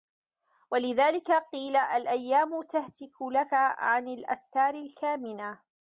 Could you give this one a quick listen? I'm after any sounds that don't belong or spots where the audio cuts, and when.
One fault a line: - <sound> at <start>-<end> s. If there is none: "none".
none